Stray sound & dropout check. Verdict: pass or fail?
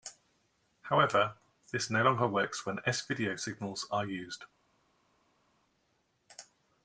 pass